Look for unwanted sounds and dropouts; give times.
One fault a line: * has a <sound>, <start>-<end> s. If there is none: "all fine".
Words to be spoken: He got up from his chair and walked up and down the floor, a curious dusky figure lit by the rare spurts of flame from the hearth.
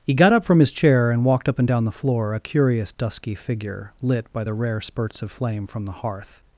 all fine